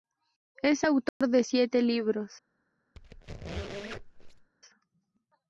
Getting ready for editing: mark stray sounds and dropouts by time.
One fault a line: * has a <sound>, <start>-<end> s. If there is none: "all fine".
* has a dropout, 1.1-1.2 s
* has a squeak, 3.0-4.5 s